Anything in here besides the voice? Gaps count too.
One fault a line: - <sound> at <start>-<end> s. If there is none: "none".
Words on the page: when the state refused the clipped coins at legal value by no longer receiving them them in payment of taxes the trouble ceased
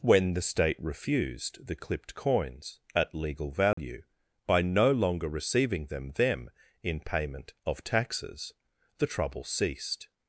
- dropout at 3.7-3.8 s